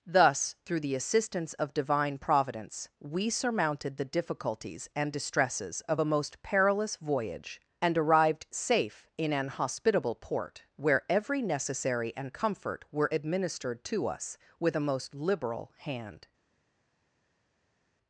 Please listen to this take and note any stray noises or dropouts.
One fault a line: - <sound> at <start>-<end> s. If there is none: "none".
none